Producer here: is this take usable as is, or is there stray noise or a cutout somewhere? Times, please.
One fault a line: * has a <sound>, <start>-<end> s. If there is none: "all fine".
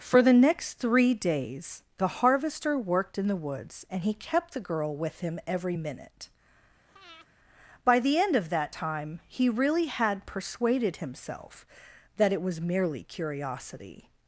* has a breath, 6.9-7.3 s